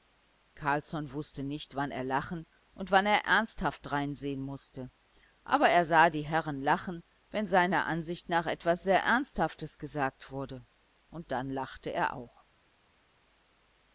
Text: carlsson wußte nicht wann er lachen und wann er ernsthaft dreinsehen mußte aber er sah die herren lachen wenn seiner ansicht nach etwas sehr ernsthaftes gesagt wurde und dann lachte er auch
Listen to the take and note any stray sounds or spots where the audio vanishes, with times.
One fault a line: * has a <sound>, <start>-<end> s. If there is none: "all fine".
all fine